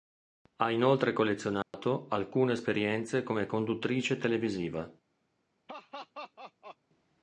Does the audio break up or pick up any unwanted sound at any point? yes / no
yes